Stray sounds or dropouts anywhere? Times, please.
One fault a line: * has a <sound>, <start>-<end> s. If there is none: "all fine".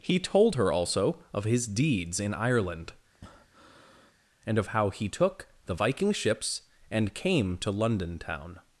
* has a breath, 3.1-4.2 s